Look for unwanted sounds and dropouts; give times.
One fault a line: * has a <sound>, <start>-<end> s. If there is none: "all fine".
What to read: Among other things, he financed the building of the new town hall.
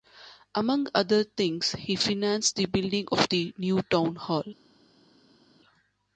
all fine